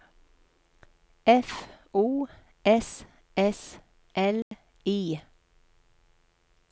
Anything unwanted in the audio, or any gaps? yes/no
yes